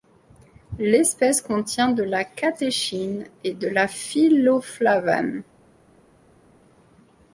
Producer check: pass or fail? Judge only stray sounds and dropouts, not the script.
pass